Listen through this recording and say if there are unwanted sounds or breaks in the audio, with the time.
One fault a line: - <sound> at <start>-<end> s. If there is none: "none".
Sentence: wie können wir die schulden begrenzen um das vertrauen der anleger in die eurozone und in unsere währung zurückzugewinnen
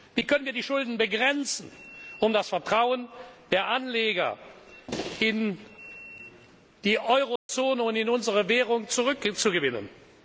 - dropout at 7.4-7.5 s